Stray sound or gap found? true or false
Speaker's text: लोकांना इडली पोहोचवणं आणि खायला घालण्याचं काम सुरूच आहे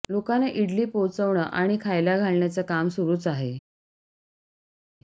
false